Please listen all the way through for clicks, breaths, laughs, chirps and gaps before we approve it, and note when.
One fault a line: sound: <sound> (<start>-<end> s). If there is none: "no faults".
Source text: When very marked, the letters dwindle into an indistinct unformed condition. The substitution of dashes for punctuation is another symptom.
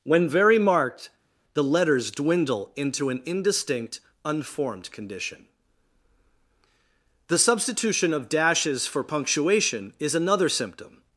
no faults